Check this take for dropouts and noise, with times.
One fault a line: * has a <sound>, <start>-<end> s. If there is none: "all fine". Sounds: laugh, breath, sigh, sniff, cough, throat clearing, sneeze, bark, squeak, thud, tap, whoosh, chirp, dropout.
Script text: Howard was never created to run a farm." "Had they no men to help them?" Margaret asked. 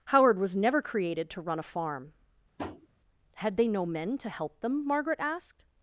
* has a tap, 2.6-2.9 s